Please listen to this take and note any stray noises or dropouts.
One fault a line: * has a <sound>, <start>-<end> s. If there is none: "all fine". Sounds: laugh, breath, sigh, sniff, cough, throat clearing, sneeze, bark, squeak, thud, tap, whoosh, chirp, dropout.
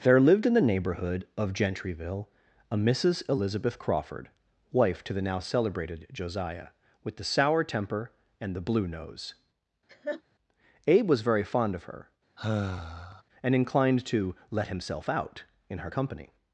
* has a laugh, 9.9-10.2 s
* has a sigh, 12.4-13.2 s